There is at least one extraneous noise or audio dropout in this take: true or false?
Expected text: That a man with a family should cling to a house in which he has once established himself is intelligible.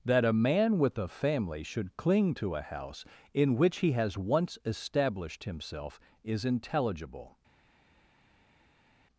false